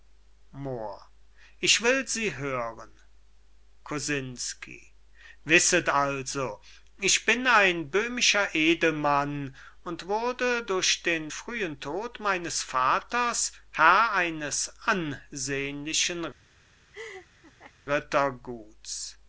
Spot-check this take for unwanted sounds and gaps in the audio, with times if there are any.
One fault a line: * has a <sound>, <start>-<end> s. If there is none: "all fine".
* has a laugh, 16.9-17.7 s